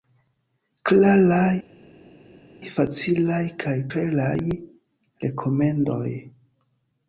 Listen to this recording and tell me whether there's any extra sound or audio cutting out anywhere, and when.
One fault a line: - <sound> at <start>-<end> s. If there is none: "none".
none